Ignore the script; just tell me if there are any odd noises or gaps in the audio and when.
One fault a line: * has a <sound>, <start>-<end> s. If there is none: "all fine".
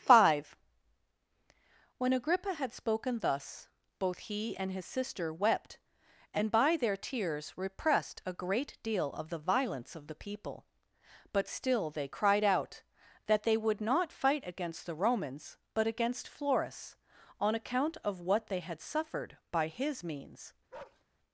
* has a bark, 20.7-21.0 s